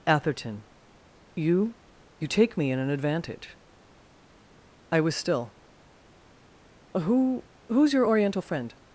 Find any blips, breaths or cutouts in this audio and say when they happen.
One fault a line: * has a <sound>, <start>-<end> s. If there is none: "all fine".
all fine